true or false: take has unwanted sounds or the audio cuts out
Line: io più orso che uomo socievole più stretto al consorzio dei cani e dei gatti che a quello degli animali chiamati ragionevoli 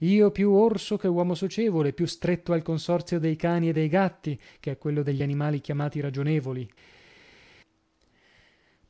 false